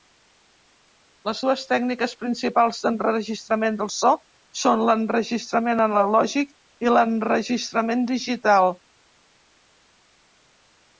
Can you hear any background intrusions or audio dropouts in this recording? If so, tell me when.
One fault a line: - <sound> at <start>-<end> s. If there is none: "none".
none